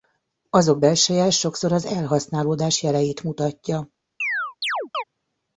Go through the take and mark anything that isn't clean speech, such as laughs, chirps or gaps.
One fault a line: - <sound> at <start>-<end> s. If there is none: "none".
- chirp at 4.2-5.0 s